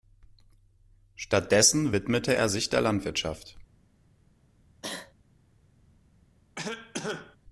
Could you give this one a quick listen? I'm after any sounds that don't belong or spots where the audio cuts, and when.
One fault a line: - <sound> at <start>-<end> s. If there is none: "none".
- cough at 4.8-5.1 s
- cough at 6.6-7.4 s